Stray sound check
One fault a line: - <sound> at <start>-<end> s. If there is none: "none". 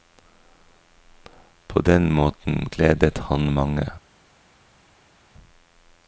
none